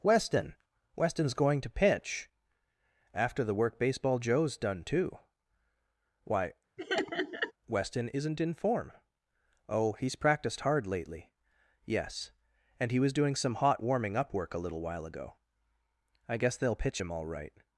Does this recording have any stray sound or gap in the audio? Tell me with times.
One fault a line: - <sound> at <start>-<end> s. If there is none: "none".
- laugh at 6.8-7.5 s